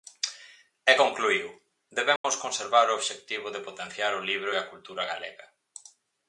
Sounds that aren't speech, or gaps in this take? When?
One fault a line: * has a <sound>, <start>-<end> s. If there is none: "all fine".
* has a dropout, 2.2-2.2 s